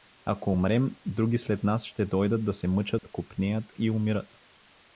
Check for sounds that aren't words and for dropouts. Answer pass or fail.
fail